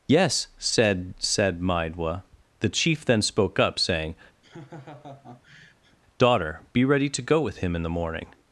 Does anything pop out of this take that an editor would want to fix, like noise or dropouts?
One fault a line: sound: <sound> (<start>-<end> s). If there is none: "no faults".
sound: laugh (4.4-6.0 s)